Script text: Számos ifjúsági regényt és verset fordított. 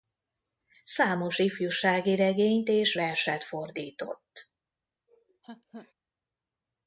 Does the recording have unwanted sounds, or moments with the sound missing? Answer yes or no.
yes